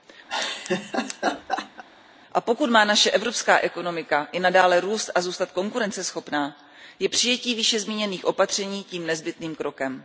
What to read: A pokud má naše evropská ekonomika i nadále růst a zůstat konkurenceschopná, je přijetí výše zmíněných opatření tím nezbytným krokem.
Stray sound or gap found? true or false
true